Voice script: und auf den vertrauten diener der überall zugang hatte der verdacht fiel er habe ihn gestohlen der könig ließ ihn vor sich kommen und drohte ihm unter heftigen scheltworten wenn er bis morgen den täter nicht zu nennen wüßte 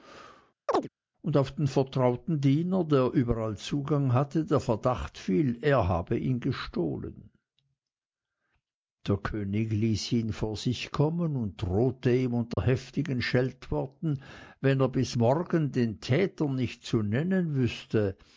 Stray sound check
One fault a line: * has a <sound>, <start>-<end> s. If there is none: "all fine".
* has a chirp, 0.7-0.9 s
* has a dropout, 12.5-12.6 s